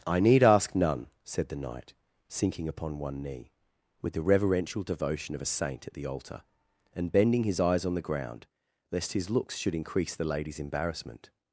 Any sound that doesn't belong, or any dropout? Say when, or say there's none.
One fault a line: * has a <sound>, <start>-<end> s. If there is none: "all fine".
all fine